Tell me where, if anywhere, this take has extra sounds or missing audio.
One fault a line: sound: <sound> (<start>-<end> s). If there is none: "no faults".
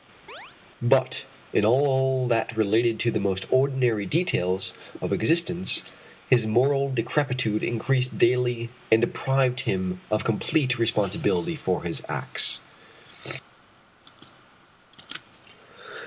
sound: chirp (0.3-0.5 s)